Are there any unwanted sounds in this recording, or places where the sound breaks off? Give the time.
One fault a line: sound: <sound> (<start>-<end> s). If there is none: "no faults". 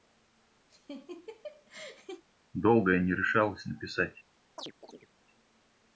sound: laugh (0.7-2.2 s)
sound: chirp (4.6-5.1 s)